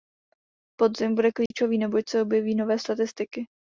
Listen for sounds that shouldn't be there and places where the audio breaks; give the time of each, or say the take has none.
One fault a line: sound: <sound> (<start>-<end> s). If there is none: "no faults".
sound: dropout (1.5-1.5 s)